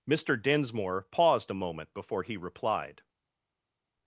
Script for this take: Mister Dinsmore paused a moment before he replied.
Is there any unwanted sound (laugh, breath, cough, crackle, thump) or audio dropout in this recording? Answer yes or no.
no